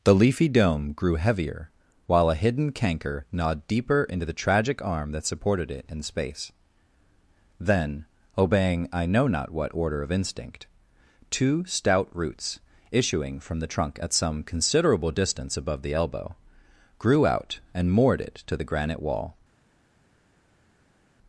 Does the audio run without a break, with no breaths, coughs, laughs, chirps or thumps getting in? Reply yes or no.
yes